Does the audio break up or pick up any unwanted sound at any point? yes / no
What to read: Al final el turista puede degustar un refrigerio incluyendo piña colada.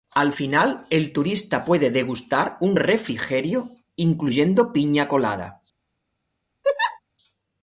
yes